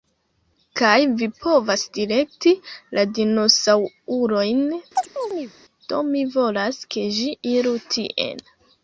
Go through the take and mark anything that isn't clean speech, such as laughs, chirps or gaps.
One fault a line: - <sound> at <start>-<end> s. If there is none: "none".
- chirp at 5.0-5.5 s